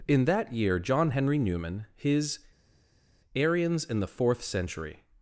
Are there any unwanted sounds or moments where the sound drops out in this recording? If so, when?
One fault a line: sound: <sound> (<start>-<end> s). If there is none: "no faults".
no faults